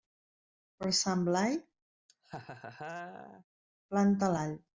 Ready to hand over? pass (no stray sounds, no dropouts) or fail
fail